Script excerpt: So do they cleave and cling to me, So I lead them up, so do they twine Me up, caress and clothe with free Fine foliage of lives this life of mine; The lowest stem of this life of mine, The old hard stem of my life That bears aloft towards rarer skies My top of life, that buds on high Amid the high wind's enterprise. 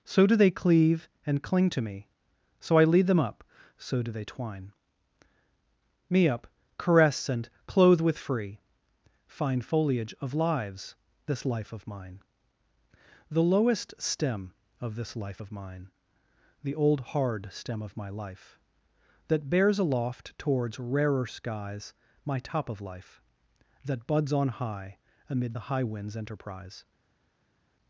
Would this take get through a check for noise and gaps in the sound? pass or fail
pass